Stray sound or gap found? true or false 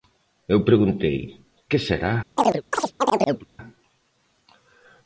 true